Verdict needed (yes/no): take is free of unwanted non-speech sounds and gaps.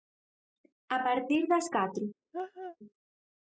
no